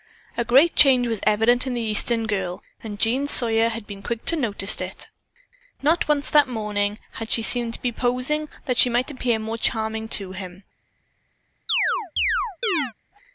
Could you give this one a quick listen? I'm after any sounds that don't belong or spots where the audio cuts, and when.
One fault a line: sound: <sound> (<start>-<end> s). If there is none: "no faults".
sound: chirp (11.7-12.9 s)